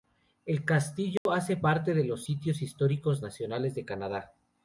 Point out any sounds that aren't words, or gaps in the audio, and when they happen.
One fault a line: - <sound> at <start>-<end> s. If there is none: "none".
- dropout at 1.2-1.3 s